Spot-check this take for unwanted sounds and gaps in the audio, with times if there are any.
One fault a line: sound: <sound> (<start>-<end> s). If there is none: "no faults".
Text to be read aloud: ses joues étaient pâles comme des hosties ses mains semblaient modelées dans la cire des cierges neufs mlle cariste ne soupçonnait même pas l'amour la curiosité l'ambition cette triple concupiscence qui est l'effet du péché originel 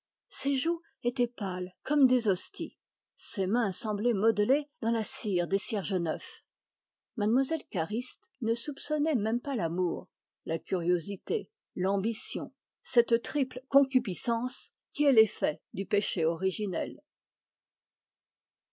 no faults